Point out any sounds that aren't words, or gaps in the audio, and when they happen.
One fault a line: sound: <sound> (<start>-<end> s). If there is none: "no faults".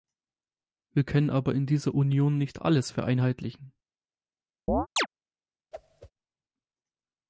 sound: chirp (4.7-5.1 s)
sound: whoosh (5.7-6.1 s)